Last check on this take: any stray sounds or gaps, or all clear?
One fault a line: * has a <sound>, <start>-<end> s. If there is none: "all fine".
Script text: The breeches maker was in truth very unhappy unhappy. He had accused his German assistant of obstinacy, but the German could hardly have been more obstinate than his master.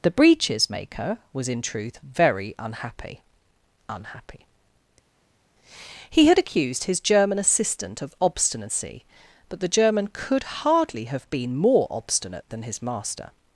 all fine